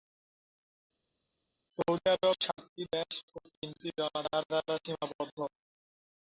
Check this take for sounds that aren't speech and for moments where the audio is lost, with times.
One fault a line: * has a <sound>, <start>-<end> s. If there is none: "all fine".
all fine